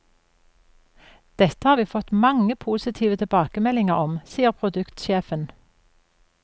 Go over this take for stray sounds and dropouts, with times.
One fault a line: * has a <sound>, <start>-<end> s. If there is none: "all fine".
all fine